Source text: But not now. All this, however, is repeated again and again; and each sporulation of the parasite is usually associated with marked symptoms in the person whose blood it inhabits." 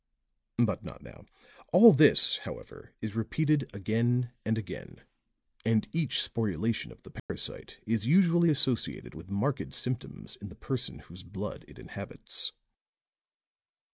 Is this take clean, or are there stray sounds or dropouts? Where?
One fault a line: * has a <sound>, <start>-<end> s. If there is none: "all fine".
* has a dropout, 7.2-7.3 s